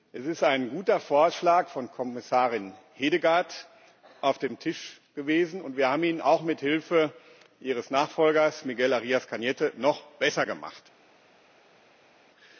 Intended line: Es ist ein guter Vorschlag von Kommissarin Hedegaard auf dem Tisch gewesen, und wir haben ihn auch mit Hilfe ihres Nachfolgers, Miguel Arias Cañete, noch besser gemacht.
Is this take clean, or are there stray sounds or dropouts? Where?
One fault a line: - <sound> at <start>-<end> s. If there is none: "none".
none